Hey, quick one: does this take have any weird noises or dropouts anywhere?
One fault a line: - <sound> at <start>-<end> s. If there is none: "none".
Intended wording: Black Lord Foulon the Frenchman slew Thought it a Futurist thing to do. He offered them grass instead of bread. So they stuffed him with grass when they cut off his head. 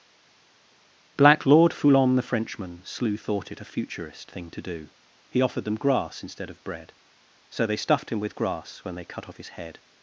none